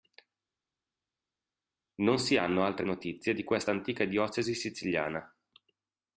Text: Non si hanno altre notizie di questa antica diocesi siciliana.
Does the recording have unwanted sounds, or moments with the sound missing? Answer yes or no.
no